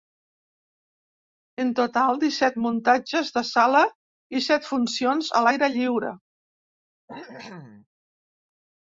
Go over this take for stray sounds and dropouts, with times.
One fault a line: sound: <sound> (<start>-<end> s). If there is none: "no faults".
sound: cough (7.1-7.9 s)